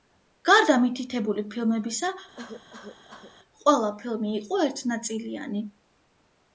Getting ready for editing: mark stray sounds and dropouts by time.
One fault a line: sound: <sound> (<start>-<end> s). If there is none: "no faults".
sound: cough (2.3-3.3 s)